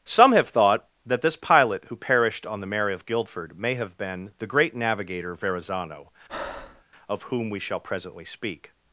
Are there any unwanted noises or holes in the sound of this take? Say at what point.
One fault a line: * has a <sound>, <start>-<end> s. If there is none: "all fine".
* has a breath, 6.3-6.8 s